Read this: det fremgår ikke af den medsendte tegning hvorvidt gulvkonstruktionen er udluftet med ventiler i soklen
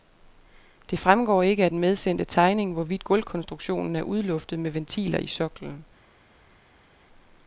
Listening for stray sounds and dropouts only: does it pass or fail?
pass